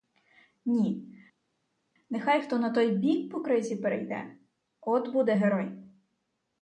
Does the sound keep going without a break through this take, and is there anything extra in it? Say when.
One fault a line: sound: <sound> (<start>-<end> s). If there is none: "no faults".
no faults